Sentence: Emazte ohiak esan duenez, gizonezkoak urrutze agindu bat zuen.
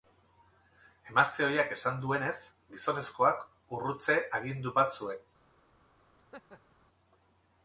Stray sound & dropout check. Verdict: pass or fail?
fail